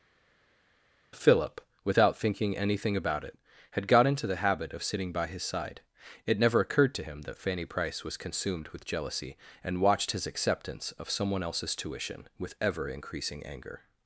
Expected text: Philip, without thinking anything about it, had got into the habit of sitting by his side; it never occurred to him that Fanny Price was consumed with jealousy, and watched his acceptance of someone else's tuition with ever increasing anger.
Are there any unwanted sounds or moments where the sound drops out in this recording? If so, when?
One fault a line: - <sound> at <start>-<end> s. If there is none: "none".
none